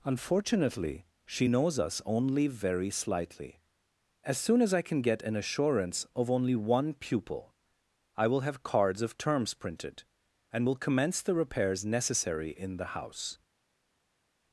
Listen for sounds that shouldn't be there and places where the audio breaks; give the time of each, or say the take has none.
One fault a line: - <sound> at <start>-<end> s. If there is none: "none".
none